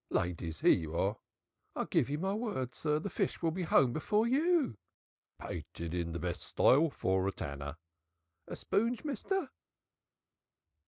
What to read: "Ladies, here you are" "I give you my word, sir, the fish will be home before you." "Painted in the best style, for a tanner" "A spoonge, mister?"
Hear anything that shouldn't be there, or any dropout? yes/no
no